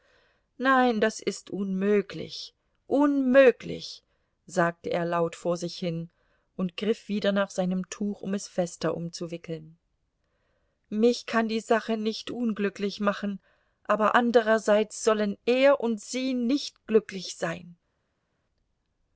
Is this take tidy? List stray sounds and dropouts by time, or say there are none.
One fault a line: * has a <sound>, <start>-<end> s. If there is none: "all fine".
all fine